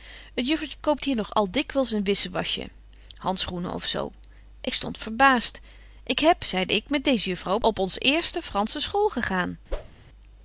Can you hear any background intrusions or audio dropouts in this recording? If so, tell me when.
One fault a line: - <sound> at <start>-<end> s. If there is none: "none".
- whoosh at 9.7-10.0 s